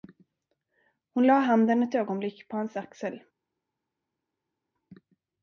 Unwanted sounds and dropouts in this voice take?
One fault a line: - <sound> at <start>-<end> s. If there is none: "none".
none